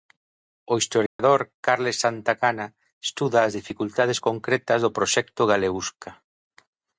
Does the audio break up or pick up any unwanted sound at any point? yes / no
yes